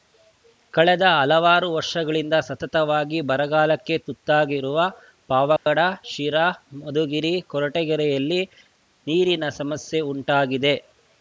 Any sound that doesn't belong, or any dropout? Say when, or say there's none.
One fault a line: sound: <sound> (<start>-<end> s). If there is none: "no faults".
sound: dropout (5.6-5.7 s)